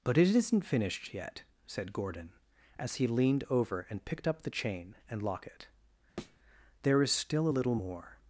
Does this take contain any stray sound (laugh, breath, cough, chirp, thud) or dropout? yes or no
yes